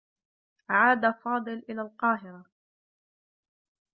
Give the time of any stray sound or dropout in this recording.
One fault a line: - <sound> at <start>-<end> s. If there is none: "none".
none